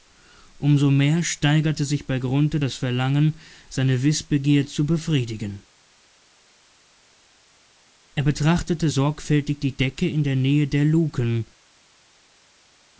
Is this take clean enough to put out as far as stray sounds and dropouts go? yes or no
yes